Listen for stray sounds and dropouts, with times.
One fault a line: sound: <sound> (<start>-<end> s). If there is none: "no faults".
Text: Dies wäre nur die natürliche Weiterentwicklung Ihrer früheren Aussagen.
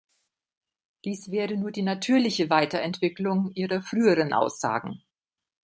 no faults